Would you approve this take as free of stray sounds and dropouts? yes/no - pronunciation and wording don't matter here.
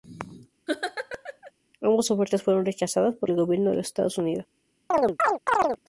no